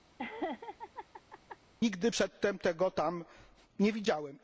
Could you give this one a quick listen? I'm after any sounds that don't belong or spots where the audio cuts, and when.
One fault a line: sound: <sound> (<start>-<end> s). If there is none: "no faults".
sound: laugh (0.2-1.6 s)